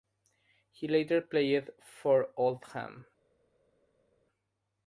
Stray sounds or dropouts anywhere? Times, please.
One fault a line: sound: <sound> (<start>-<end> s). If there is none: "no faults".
no faults